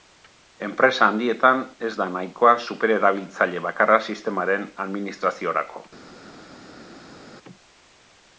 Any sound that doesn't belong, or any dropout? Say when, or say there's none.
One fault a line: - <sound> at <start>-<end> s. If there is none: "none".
none